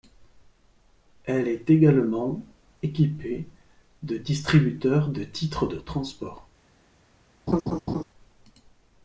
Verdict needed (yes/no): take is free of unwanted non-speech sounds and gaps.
no